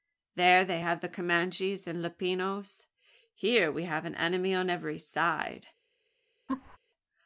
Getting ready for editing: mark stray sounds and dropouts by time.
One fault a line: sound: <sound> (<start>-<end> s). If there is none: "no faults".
sound: laugh (6.5-6.8 s)